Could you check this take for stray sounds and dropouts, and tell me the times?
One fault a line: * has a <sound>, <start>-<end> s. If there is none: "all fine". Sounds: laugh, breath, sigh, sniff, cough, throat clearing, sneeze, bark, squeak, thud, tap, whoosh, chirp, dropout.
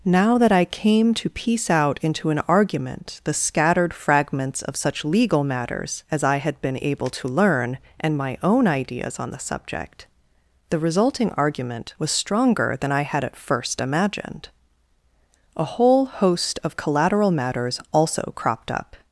all fine